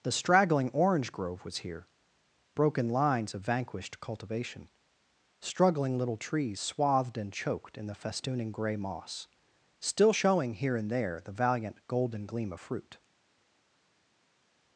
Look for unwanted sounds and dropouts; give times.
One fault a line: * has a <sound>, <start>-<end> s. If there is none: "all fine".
all fine